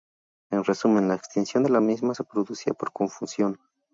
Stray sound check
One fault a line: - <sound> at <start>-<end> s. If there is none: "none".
none